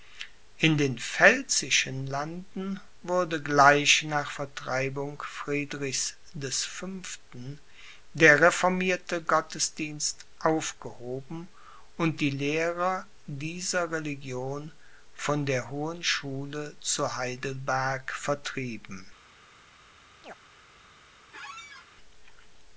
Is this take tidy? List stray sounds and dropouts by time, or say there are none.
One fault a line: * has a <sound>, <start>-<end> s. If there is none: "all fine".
* has a chirp, 20.2-20.3 s
* has a squeak, 21.3-21.9 s